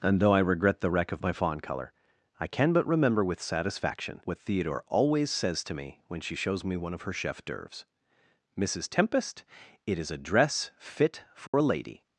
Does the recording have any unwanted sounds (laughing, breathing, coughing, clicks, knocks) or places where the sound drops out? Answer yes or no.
yes